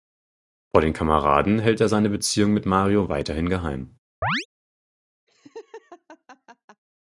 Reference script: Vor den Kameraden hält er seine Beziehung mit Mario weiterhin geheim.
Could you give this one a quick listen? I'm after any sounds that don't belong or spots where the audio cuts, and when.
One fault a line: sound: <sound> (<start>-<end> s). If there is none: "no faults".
sound: chirp (4.2-4.5 s)
sound: laugh (5.3-6.8 s)